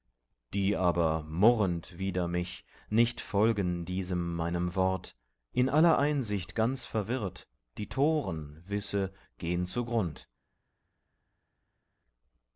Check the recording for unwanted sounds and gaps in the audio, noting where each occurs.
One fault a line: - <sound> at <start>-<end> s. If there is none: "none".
none